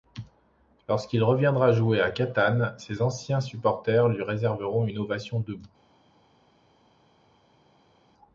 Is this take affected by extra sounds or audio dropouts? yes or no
no